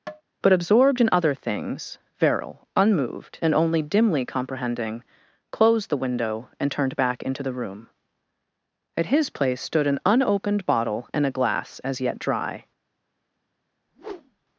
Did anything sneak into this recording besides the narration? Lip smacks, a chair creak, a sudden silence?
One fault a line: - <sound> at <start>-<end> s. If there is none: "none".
- tap at 0.1-0.2 s
- whoosh at 13.9-14.5 s